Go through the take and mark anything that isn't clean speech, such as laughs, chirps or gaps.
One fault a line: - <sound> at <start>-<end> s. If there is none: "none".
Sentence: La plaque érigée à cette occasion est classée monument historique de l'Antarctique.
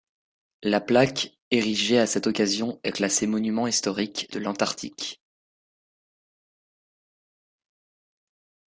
none